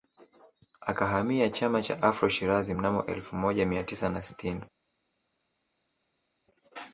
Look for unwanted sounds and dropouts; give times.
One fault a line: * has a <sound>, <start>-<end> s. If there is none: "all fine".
all fine